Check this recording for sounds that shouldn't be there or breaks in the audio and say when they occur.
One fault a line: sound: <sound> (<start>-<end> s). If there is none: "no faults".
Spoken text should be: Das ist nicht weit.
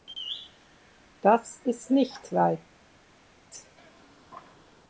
no faults